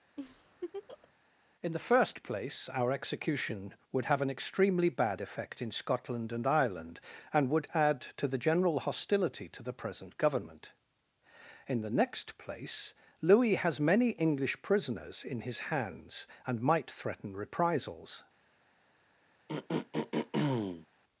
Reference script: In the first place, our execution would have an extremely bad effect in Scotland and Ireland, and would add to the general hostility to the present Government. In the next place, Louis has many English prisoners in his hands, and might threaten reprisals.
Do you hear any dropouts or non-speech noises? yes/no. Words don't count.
yes